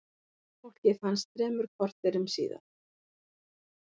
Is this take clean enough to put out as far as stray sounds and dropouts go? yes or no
yes